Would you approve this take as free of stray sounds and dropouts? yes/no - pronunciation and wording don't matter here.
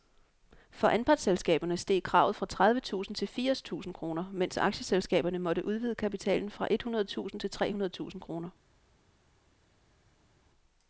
yes